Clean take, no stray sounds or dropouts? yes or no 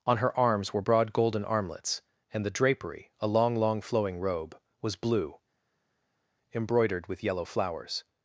yes